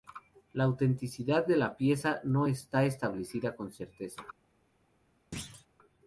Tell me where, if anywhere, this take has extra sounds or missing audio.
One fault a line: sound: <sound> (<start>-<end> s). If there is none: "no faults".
sound: thud (5.3-5.7 s)